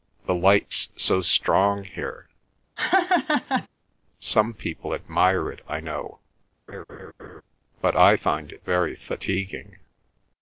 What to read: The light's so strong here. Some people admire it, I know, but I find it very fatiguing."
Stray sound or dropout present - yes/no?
yes